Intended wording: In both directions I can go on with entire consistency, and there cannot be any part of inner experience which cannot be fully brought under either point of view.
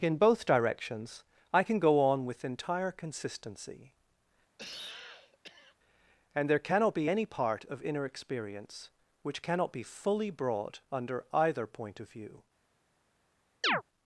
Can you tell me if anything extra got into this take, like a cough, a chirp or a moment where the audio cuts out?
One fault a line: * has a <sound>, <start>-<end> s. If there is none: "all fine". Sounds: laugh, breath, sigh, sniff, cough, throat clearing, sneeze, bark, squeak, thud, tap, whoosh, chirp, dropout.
* has a cough, 4.6-5.8 s
* has a chirp, 13.6-13.8 s